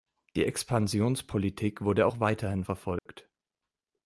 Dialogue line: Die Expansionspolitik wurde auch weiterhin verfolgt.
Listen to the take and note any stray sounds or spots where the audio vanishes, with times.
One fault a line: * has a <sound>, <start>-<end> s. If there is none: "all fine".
* has a dropout, 3.0-3.1 s